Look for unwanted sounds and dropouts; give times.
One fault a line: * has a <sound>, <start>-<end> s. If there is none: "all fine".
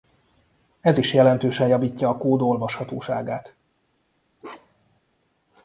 * has a bark, 4.4-5.0 s